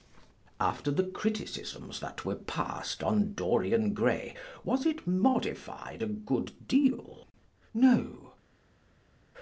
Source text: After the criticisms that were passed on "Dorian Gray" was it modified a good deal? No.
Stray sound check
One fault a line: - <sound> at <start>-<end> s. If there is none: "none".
none